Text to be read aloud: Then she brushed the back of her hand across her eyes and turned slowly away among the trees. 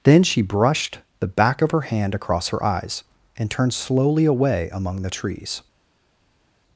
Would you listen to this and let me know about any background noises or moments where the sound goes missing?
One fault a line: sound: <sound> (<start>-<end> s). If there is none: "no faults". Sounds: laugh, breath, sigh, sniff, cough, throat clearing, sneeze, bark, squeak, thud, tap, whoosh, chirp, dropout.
no faults